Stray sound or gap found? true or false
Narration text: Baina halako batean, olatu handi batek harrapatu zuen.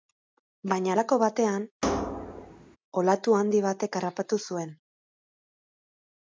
true